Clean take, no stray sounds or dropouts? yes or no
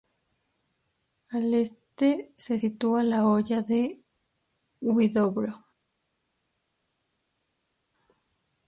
yes